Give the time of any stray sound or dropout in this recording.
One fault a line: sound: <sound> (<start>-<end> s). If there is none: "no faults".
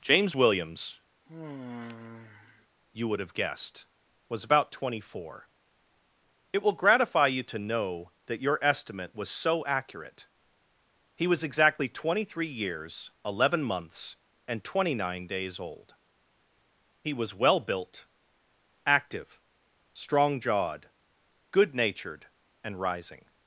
sound: sigh (1.3-2.7 s)